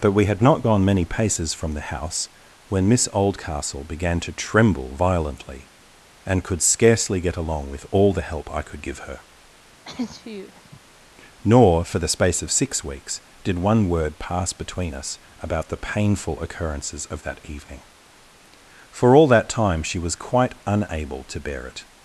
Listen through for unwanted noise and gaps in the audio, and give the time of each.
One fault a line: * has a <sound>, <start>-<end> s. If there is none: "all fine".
* has a sneeze, 9.8-10.8 s